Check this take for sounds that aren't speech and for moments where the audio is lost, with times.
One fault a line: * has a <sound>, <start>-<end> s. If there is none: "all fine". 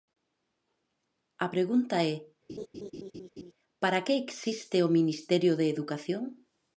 * has a laugh, 2.5-3.5 s